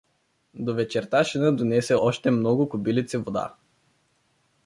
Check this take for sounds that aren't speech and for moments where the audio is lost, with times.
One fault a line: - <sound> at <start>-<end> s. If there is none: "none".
none